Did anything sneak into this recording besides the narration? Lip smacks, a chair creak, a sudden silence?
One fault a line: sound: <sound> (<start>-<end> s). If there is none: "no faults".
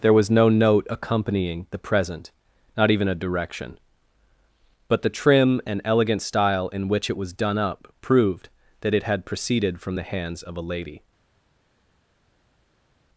no faults